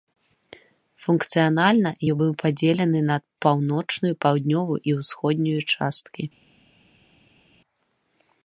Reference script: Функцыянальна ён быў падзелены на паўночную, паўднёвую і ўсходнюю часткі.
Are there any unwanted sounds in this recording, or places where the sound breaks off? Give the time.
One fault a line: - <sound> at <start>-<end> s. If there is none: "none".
none